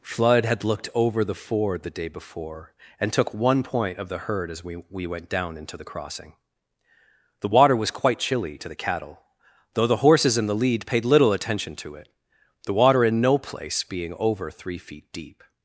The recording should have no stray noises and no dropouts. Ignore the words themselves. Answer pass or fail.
pass